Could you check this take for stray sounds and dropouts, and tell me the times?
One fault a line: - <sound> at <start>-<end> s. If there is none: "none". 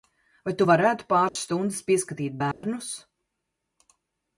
- dropout at 1.3-1.4 s
- dropout at 2.5-2.6 s